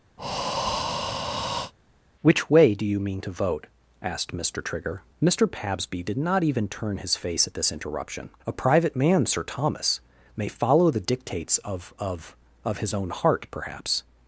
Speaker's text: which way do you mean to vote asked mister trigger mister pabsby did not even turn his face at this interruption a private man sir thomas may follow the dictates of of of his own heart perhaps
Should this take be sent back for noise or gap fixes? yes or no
yes